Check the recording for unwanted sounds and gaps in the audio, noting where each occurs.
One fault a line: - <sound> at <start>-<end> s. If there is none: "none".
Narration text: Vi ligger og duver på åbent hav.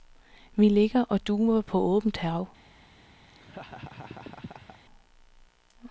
- laugh at 3.3-4.8 s